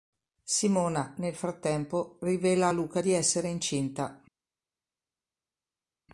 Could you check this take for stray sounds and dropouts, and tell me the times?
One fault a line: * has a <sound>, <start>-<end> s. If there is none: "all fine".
all fine